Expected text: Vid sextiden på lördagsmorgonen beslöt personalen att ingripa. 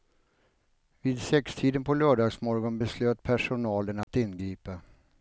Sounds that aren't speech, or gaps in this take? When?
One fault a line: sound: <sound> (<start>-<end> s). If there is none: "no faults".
sound: dropout (4.0-4.1 s)